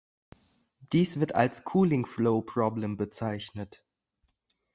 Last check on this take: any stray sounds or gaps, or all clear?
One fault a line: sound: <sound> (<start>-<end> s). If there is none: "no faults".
no faults